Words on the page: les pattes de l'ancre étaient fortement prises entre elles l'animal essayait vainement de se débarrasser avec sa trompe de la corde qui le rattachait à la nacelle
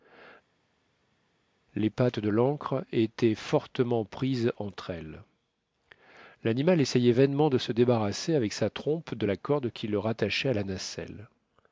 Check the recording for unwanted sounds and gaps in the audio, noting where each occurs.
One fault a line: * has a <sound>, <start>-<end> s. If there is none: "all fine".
all fine